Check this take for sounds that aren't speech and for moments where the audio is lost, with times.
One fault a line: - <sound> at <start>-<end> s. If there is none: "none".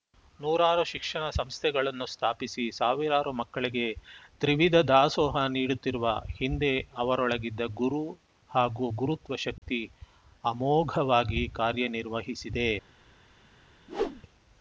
- dropout at 9.6-9.6 s
- whoosh at 13.9-14.2 s